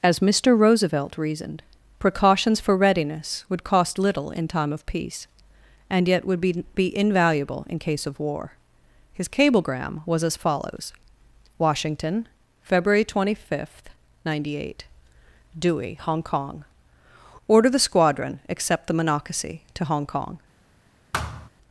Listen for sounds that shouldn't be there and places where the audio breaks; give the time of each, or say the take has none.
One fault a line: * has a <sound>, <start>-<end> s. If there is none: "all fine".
* has a thud, 21.1-21.5 s